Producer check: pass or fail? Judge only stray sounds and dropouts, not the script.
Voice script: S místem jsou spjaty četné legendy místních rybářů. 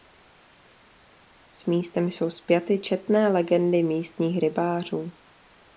pass